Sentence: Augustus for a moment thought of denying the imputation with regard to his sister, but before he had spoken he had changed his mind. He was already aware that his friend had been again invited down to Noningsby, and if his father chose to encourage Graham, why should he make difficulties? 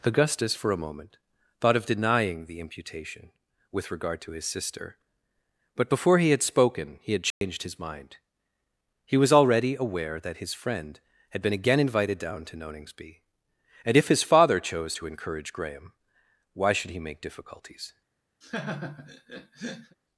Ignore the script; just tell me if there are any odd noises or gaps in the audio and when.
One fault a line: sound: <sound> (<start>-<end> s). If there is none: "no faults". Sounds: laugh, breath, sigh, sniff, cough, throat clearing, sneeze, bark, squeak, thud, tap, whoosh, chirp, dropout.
sound: dropout (7.3-7.4 s)
sound: laugh (18.4-20.0 s)